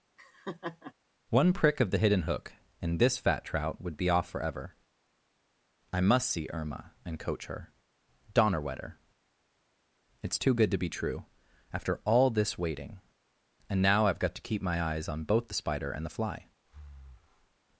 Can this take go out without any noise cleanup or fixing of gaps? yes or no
no